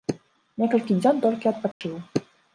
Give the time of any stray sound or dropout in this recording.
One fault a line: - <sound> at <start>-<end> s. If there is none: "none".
- dropout at 1.7-1.8 s